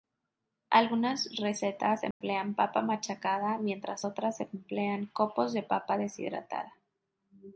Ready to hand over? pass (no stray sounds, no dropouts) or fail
fail